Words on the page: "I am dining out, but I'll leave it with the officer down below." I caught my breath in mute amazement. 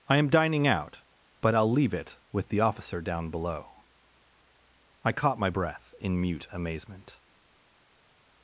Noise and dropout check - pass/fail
pass